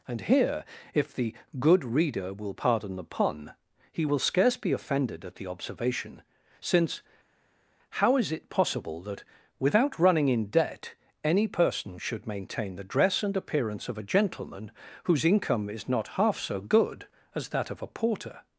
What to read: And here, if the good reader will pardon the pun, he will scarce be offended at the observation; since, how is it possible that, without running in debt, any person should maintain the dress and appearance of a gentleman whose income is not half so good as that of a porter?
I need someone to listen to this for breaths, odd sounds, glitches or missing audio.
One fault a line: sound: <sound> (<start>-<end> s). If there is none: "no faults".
no faults